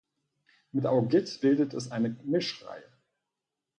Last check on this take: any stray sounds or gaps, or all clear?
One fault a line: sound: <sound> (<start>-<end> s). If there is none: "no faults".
no faults